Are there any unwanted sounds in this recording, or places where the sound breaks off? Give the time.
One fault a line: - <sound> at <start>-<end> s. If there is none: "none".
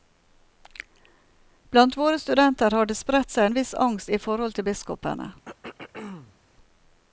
- throat clearing at 5.5-6.4 s